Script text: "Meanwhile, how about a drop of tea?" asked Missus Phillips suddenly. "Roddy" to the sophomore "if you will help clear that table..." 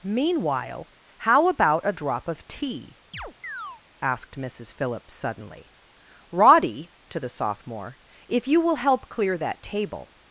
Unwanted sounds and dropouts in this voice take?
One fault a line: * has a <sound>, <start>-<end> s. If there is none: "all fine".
* has a chirp, 3.1-3.8 s